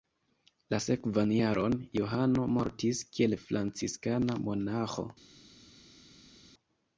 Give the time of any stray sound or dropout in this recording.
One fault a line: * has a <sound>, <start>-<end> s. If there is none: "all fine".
all fine